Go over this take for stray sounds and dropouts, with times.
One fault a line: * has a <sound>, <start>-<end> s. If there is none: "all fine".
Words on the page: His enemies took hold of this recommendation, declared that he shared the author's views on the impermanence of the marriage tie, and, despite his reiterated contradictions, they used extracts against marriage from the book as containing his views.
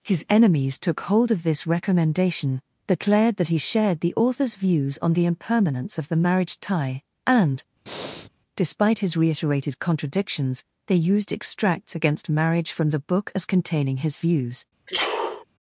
* has a breath, 7.9-8.3 s
* has a sneeze, 14.9-15.4 s